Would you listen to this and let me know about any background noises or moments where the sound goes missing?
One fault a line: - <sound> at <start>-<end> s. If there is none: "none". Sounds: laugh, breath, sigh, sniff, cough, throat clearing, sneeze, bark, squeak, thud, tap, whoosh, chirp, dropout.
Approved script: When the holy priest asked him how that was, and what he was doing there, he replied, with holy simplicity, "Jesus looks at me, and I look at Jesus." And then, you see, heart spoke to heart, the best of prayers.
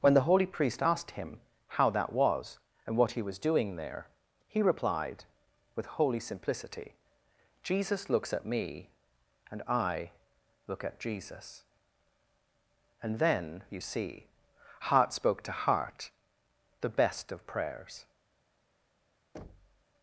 - thud at 19.3-19.8 s